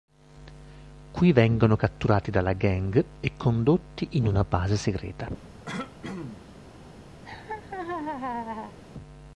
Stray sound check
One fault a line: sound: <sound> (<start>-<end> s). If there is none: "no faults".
sound: throat clearing (5.7-6.4 s)
sound: laugh (7.2-8.8 s)